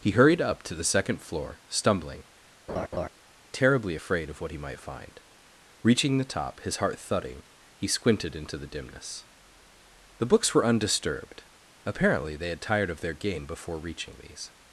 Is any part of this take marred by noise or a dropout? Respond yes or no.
yes